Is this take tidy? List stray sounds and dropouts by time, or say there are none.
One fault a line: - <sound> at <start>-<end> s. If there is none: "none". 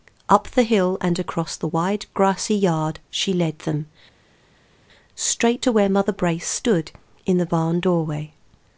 none